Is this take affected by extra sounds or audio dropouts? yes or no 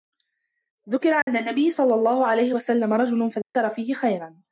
yes